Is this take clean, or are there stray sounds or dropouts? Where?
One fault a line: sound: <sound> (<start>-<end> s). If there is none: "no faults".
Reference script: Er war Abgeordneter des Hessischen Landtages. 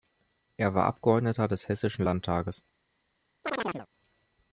sound: chirp (3.4-3.9 s)